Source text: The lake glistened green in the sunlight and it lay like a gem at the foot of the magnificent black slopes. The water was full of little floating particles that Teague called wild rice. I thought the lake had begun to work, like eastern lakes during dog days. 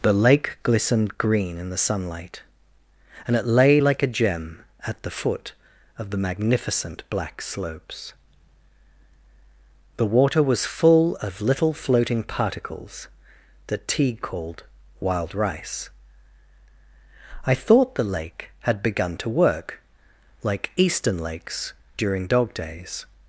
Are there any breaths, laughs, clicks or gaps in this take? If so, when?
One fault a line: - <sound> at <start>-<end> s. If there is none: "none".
none